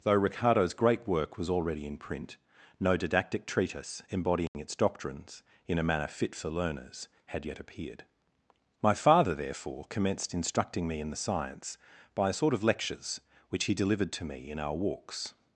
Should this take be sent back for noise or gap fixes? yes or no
yes